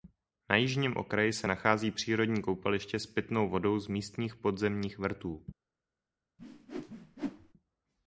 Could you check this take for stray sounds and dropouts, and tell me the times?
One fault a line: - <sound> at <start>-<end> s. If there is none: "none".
- whoosh at 6.4-7.5 s